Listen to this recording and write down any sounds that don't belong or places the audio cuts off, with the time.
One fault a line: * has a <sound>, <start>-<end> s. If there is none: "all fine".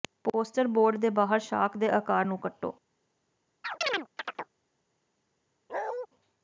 * has a chirp, 3.6-4.5 s
* has a bark, 5.7-6.1 s